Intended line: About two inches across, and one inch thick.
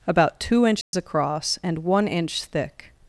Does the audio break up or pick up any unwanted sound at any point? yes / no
yes